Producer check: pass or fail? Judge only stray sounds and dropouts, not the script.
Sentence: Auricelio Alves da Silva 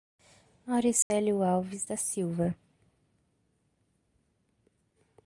fail